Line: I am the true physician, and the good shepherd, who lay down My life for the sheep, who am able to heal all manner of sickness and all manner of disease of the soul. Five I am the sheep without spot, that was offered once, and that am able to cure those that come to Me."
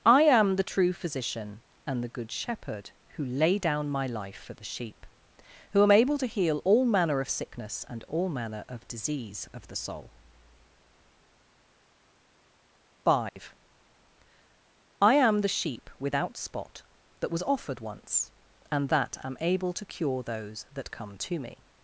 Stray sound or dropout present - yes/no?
yes